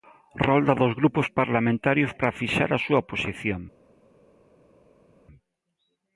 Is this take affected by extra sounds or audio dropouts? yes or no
no